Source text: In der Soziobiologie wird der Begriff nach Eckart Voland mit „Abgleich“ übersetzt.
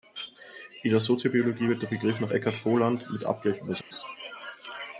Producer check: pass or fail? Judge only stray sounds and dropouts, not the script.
fail